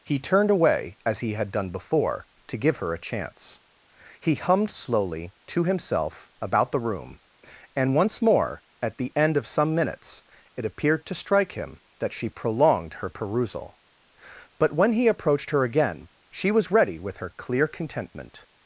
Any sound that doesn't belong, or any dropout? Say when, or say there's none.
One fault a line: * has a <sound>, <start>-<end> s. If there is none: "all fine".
all fine